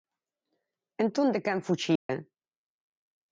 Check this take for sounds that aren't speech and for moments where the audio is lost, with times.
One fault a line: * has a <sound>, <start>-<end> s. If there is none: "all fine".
* has a dropout, 2.0-2.1 s